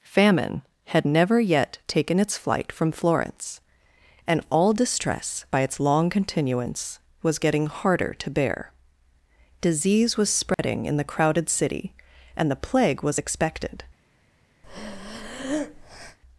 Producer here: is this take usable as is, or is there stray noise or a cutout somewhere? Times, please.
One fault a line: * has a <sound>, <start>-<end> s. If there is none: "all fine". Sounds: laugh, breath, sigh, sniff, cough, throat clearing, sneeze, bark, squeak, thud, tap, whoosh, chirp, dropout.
* has a dropout, 10.5-10.6 s
* has a breath, 14.6-16.2 s